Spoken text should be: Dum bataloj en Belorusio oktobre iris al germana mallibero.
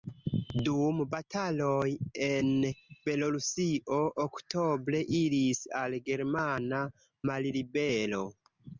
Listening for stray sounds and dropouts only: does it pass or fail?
pass